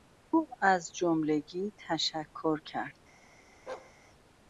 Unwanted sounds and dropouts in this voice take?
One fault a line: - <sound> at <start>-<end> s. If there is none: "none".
- bark at 3.7-3.9 s